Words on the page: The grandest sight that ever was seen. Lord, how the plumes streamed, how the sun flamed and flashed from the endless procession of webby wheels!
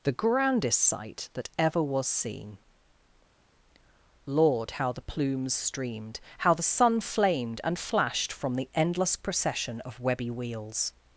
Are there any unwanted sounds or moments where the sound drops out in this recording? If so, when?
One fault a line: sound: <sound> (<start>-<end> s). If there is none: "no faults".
no faults